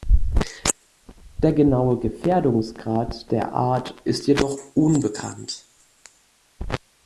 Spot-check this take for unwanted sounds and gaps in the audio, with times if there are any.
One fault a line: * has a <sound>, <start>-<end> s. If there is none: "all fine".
all fine